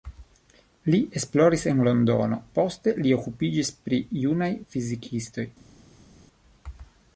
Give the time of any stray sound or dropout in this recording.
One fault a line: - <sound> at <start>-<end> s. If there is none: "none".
none